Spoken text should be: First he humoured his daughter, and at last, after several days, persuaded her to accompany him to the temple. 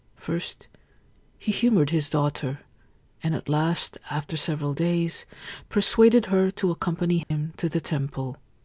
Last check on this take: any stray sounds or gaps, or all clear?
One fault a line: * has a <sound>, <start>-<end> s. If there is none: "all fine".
* has a dropout, 7.2-7.3 s